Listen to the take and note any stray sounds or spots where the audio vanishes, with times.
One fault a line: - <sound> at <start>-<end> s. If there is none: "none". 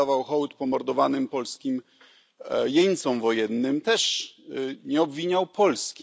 none